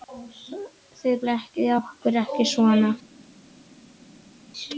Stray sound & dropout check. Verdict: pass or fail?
pass